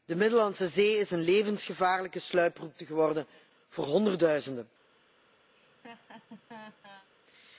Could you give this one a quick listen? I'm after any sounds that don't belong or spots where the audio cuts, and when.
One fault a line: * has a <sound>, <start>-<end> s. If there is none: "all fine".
* has a laugh, 5.5-7.1 s